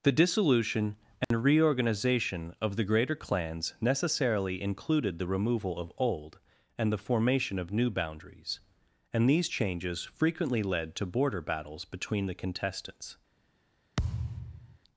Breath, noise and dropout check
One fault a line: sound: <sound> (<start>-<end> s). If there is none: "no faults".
sound: dropout (1.2-1.3 s)
sound: thud (14.0-14.8 s)